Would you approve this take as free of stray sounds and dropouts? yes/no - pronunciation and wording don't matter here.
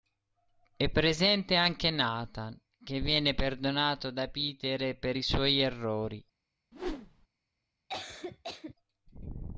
no